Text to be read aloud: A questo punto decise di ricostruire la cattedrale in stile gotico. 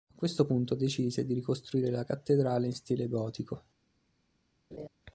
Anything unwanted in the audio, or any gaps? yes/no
yes